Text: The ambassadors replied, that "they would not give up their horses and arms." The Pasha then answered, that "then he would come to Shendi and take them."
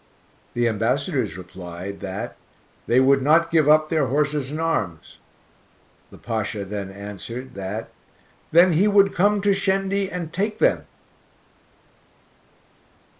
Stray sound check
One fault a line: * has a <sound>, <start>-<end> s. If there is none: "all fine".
all fine